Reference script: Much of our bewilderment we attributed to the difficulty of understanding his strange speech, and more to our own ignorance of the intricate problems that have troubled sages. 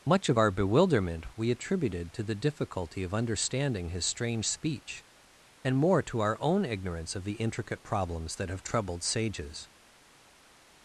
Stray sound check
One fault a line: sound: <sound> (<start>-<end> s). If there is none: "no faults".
no faults